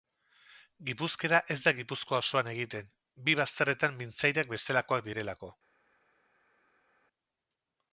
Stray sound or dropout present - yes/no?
no